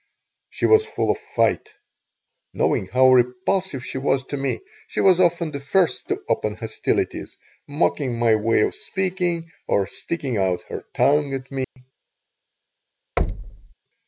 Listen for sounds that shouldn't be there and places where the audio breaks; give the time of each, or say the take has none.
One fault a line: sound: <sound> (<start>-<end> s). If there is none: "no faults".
sound: dropout (11.6-11.8 s)
sound: thud (13.2-13.7 s)